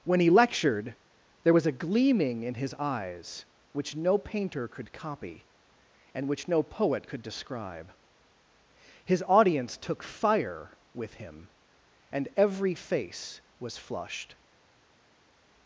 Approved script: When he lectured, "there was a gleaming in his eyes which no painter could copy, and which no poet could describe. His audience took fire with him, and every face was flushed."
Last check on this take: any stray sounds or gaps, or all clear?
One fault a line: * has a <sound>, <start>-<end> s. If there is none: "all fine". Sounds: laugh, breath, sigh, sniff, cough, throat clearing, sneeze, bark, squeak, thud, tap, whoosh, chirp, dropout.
all fine